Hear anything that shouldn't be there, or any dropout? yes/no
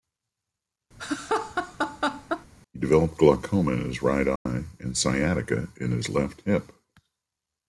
yes